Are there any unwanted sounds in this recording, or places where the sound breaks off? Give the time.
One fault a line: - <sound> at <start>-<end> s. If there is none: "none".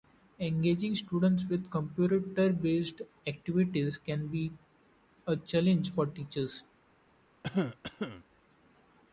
- cough at 7.4-8.2 s